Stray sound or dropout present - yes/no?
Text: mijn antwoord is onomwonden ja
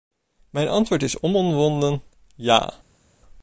no